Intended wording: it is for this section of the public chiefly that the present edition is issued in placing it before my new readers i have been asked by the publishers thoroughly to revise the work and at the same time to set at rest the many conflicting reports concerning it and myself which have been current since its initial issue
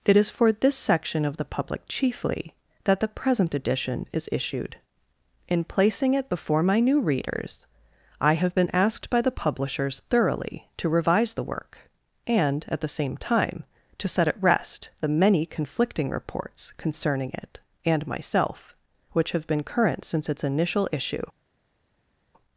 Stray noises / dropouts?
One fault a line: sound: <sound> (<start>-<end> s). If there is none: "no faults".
no faults